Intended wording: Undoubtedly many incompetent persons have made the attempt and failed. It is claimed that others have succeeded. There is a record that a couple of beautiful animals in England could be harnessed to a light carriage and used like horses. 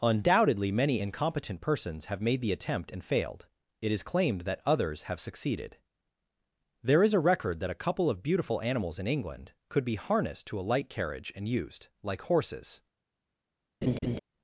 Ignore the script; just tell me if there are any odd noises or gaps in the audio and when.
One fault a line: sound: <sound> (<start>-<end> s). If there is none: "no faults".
sound: laugh (13.8-14.2 s)